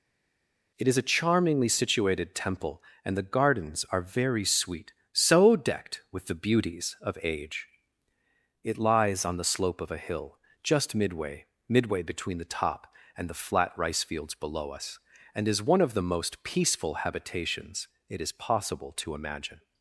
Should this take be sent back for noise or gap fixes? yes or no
no